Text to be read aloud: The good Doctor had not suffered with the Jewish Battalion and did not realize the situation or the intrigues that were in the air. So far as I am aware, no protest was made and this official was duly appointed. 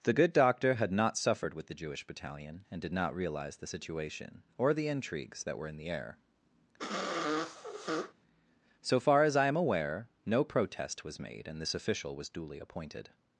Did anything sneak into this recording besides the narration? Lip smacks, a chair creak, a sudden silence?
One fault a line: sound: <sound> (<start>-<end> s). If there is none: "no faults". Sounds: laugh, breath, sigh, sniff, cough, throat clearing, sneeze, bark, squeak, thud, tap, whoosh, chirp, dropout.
sound: sniff (6.8-8.1 s)